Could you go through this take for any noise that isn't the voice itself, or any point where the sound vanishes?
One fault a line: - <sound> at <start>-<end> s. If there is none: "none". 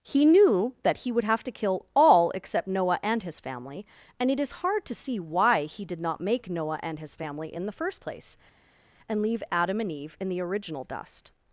none